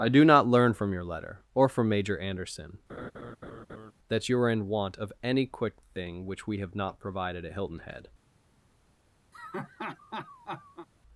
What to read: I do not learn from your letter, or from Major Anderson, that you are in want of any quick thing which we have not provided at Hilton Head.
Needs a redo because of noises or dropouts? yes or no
yes